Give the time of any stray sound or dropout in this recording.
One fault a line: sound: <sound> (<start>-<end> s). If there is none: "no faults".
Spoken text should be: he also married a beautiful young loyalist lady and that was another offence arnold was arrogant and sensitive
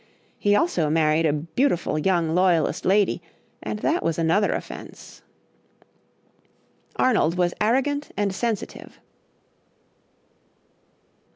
no faults